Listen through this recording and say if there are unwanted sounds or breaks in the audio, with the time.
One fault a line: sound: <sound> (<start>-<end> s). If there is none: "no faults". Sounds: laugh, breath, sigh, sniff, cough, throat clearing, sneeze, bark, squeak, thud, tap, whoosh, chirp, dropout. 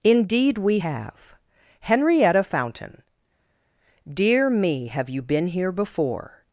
no faults